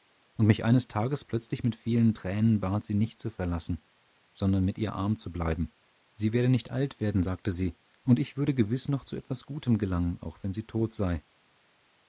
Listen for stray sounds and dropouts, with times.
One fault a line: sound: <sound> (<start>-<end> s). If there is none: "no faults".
no faults